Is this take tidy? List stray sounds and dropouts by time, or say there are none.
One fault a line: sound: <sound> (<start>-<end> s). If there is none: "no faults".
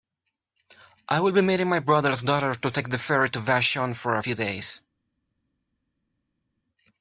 no faults